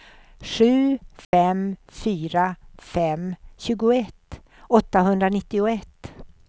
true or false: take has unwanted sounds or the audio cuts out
true